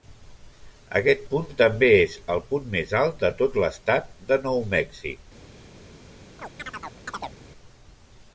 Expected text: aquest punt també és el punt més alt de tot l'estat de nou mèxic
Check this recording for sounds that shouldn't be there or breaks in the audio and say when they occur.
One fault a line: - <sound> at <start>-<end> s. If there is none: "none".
- chirp at 6.4-7.4 s